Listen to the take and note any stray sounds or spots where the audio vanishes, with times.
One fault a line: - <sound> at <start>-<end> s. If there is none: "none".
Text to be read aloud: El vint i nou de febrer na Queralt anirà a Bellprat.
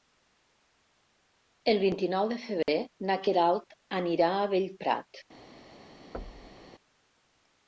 - dropout at 2.6-2.7 s
- thud at 6.1-6.7 s